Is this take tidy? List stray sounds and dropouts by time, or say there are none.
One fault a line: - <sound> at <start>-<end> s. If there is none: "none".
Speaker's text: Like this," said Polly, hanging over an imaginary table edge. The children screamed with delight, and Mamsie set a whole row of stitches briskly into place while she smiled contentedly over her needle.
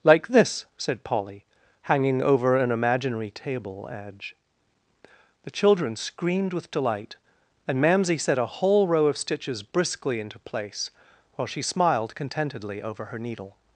none